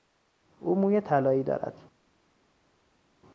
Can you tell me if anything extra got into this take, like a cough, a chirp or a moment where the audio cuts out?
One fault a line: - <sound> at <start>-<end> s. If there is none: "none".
none